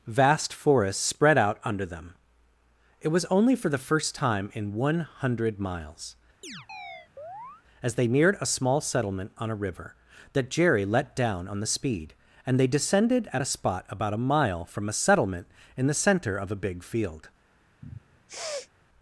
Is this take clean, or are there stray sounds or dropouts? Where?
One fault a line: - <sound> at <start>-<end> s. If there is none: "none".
- chirp at 6.4-7.6 s
- sniff at 17.8-18.7 s